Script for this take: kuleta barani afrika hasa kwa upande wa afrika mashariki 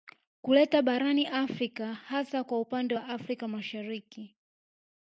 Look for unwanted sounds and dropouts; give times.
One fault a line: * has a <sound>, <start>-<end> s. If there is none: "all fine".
all fine